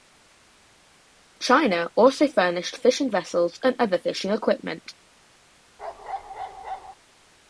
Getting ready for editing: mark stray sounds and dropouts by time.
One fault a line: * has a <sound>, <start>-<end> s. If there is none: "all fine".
* has a bark, 5.8-7.0 s